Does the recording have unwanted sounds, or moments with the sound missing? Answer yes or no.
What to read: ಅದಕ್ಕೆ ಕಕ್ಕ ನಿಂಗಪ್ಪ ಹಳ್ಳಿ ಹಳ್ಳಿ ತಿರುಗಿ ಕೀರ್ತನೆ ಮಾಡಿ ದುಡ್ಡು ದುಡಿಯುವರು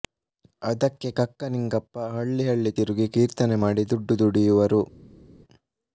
no